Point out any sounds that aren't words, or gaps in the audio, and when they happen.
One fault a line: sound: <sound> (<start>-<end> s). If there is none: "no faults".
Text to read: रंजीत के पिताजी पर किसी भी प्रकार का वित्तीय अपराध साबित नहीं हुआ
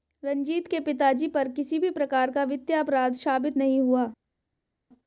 no faults